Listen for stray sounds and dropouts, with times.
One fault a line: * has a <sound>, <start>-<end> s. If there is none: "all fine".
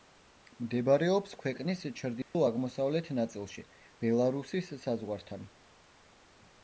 * has a dropout, 2.2-2.3 s